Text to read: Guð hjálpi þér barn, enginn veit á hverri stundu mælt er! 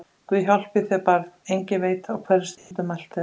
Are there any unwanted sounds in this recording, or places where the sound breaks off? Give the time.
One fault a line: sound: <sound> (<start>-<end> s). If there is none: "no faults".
sound: dropout (2.6-2.7 s)